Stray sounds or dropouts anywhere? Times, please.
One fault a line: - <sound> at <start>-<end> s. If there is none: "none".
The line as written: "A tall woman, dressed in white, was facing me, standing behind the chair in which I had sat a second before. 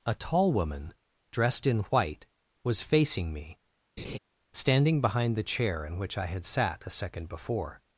- laugh at 4.0-4.2 s